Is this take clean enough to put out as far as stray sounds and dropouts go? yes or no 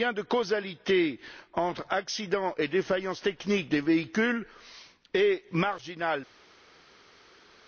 yes